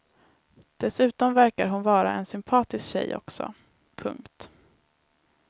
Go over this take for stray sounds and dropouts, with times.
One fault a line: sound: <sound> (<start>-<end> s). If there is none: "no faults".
no faults